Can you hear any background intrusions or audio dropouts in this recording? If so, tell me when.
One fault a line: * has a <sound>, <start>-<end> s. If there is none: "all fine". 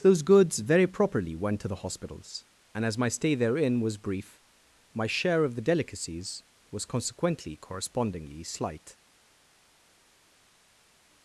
all fine